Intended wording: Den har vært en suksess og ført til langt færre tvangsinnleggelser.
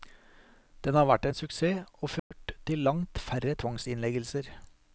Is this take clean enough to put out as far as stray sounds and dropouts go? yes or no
no